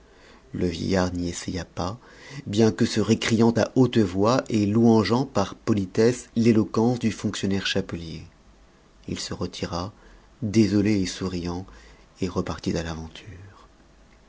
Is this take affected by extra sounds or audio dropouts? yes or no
no